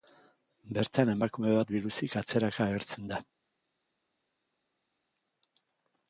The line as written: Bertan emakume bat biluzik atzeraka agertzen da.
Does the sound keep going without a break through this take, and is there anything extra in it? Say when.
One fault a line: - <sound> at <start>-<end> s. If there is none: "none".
none